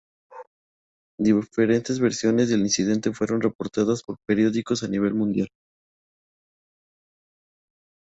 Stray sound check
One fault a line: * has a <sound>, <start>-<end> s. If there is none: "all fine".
all fine